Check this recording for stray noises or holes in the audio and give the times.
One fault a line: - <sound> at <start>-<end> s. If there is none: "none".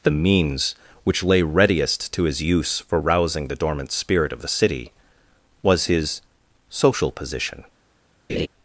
- laugh at 8.3-8.5 s